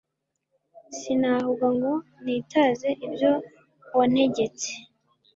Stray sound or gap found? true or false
false